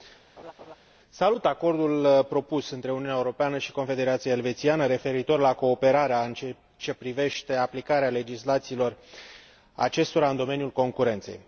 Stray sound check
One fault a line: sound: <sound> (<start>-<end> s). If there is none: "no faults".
sound: laugh (0.4-0.8 s)